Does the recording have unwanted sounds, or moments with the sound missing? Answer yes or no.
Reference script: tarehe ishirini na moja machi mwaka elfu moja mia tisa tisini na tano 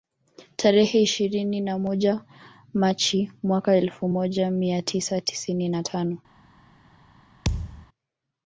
yes